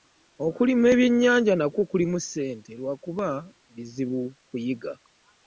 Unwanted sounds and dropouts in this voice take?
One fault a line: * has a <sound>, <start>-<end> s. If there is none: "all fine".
all fine